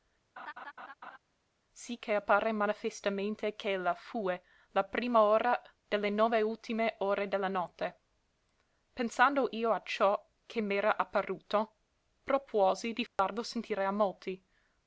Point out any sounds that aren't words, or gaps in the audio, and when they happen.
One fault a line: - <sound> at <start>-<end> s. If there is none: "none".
- laugh at 0.4-1.2 s
- dropout at 13.1-13.2 s